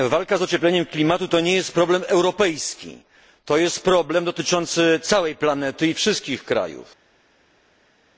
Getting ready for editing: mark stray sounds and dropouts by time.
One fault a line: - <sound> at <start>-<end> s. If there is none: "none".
none